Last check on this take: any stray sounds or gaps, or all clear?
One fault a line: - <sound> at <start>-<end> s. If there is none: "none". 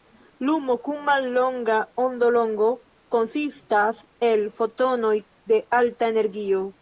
none